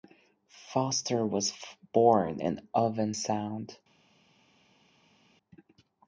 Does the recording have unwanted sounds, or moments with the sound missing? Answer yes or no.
no